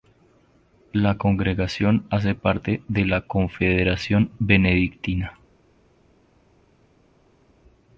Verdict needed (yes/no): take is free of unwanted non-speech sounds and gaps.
yes